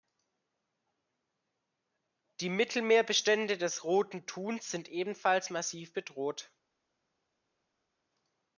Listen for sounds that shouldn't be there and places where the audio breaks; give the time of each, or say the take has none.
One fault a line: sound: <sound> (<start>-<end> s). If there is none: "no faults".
no faults